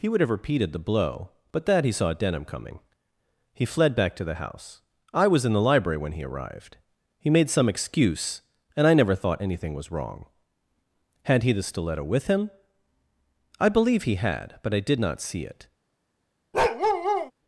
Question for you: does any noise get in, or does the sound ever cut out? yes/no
yes